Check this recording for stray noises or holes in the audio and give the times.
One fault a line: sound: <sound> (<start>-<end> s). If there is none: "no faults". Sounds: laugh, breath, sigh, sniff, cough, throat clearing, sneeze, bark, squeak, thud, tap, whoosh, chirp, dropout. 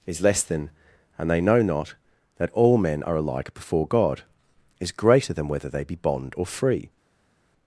no faults